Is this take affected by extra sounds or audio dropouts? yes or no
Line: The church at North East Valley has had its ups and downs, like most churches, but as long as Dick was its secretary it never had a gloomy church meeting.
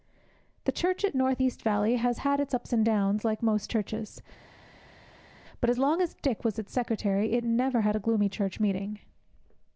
no